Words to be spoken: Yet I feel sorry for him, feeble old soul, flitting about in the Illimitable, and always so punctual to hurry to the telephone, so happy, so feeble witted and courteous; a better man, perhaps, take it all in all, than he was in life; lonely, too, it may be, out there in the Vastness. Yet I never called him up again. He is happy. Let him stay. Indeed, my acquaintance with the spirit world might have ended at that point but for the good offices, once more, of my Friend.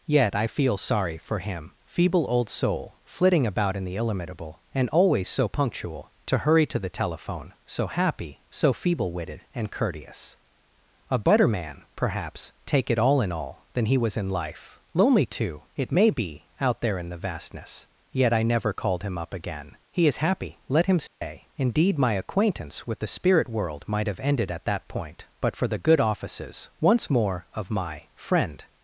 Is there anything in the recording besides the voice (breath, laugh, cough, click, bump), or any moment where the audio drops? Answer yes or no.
yes